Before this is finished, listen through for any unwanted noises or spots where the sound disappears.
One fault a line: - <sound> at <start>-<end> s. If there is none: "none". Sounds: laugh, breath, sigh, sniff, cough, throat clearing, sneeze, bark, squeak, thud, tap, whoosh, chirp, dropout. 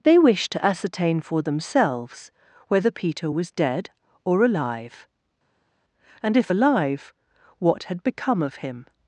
none